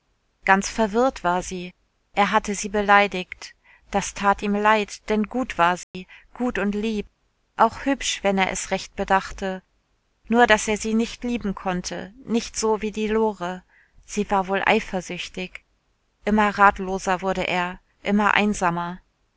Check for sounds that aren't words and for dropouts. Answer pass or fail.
fail